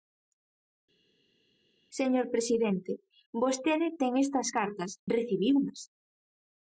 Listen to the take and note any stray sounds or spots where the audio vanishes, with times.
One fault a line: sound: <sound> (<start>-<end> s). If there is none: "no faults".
no faults